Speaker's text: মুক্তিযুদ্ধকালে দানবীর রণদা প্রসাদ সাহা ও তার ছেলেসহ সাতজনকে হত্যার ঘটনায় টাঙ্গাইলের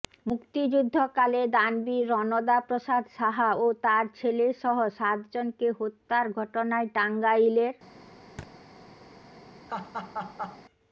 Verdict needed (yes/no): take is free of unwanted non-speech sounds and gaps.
no